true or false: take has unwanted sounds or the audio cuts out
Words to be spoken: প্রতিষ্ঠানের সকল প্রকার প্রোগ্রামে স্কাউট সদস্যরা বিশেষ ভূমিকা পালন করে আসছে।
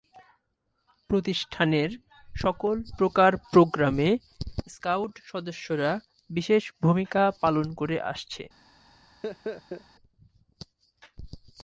true